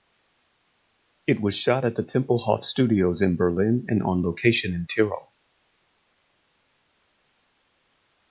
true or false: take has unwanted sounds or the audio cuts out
false